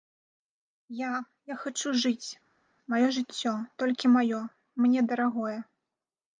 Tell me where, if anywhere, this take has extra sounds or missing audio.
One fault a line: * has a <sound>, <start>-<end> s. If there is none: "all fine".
all fine